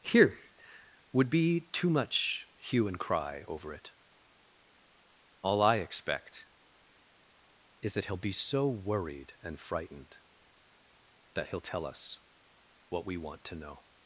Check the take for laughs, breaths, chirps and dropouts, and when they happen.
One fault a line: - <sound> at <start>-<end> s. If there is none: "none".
none